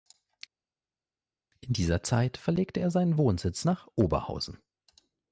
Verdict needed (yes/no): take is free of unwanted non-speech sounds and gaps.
yes